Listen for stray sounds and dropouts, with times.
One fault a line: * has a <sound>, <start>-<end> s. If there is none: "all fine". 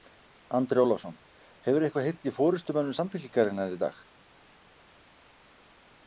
all fine